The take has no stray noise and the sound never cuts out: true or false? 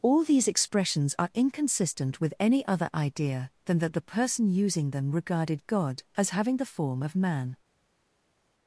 true